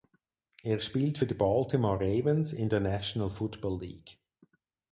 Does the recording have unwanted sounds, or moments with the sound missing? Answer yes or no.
no